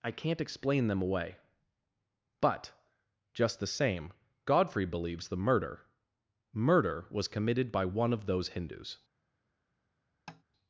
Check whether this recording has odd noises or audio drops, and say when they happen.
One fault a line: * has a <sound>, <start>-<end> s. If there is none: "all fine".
* has a tap, 10.3-10.4 s